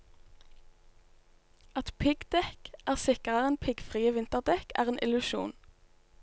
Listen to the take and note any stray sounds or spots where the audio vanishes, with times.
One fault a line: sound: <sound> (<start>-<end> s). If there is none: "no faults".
no faults